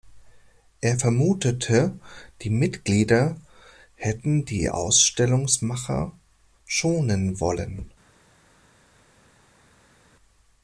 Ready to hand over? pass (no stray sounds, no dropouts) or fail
pass